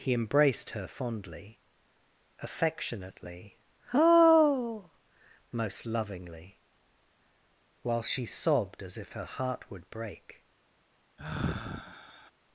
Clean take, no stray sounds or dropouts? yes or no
no